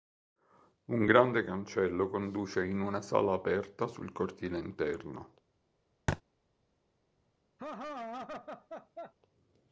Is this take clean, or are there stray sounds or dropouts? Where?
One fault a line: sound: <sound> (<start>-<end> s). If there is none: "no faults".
sound: thud (6.1-6.2 s)
sound: laugh (7.6-9.1 s)